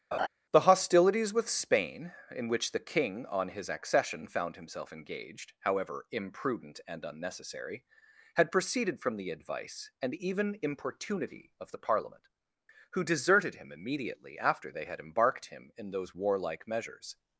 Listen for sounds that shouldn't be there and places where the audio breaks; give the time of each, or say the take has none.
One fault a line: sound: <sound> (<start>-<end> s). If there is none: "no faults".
sound: laugh (0.1-0.3 s)